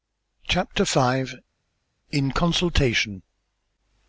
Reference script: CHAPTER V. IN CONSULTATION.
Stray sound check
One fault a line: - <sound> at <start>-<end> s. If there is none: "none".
none